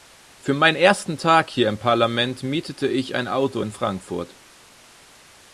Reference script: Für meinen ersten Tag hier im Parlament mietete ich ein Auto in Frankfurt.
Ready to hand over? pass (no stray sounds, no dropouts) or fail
pass